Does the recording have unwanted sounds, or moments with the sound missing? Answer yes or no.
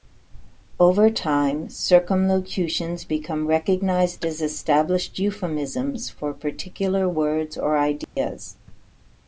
yes